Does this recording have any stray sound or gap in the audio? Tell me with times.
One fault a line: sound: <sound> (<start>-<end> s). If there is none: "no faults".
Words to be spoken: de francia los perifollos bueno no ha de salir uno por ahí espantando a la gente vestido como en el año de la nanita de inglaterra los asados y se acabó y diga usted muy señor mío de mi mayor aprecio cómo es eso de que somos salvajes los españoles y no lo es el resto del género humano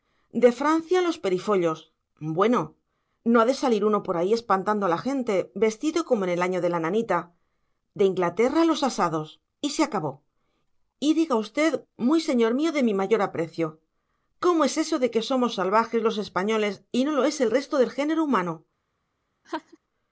sound: laugh (19.4-19.8 s)